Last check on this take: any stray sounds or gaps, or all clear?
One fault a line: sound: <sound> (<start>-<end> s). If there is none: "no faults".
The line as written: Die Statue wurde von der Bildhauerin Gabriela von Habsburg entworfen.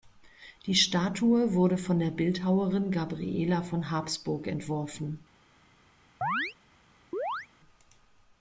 sound: chirp (6.2-6.5 s)
sound: chirp (7.1-7.5 s)